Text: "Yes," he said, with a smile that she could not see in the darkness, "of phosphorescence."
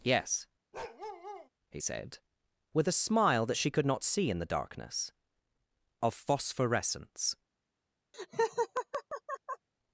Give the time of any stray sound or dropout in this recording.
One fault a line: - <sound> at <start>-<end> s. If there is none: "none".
- bark at 0.7-1.5 s
- laugh at 8.1-9.7 s